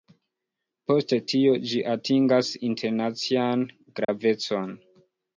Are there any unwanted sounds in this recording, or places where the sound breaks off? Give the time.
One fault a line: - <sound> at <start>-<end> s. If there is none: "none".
- dropout at 4.0-4.1 s